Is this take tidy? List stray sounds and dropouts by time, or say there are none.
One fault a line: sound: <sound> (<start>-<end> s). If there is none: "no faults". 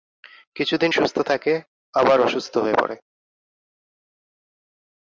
no faults